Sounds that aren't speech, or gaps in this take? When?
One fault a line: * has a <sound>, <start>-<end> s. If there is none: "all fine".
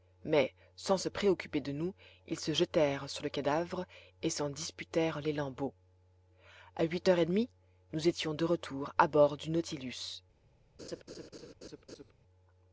* has a laugh, 10.8-12.1 s